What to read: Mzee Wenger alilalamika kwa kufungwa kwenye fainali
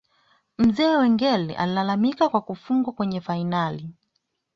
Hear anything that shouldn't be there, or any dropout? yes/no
no